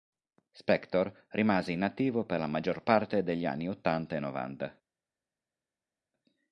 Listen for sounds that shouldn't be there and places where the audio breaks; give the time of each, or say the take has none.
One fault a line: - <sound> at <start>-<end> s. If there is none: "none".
none